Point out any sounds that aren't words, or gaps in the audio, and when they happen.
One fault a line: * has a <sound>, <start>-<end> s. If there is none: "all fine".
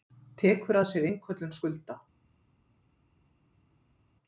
all fine